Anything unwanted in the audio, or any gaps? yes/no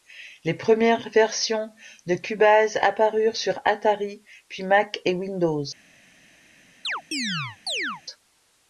yes